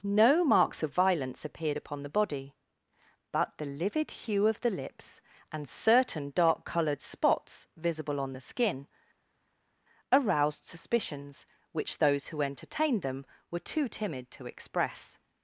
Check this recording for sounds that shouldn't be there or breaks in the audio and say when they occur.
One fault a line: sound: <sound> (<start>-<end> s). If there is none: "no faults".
no faults